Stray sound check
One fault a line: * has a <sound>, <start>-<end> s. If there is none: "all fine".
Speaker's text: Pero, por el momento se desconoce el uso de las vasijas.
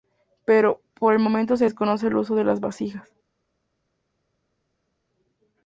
all fine